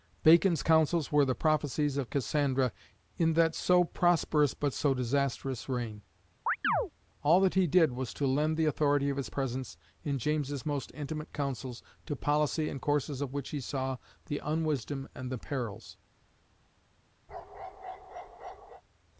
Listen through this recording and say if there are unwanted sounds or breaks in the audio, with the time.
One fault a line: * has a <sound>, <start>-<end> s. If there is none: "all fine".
* has a chirp, 6.5-6.9 s
* has a bark, 17.3-18.8 s